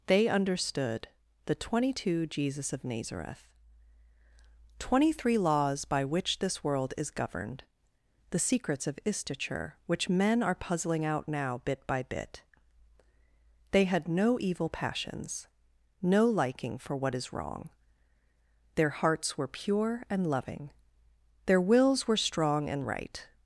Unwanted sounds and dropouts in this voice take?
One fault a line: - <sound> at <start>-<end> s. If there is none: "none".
none